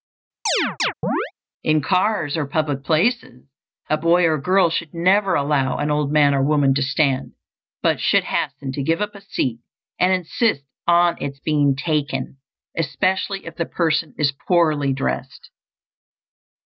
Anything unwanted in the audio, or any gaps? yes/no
yes